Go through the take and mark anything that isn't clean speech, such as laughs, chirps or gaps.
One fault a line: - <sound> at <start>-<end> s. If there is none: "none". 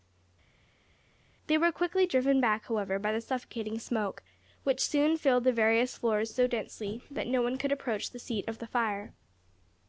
none